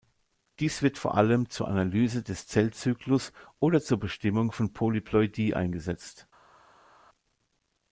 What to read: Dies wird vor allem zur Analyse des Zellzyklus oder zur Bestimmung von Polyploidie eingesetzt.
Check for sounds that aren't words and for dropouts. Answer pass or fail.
pass